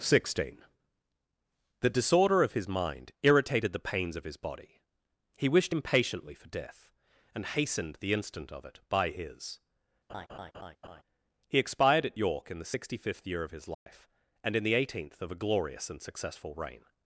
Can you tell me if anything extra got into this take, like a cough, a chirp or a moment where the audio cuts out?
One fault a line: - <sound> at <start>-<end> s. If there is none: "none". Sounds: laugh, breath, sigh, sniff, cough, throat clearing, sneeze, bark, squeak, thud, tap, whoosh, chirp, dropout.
- laugh at 10.1-11.0 s
- dropout at 13.7-13.9 s